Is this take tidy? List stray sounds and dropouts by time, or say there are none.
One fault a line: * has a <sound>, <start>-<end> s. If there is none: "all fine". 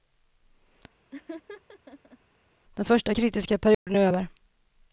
* has a laugh, 1.1-2.2 s
* has a dropout, 3.7-3.9 s